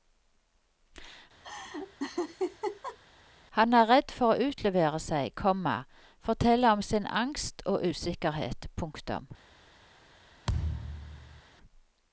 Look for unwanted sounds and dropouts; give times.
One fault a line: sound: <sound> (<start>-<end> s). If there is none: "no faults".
sound: laugh (1.4-3.0 s)
sound: thud (10.5-11.4 s)